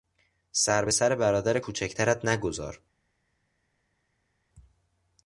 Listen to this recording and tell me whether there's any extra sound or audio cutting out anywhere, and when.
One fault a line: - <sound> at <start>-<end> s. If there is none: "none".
none